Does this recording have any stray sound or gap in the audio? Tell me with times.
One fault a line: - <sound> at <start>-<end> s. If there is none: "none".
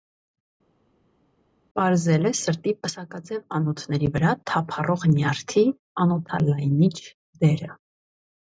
none